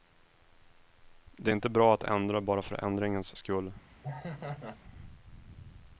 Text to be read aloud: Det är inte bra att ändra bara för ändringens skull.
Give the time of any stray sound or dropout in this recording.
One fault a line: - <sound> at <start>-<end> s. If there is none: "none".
- laugh at 4.0-4.8 s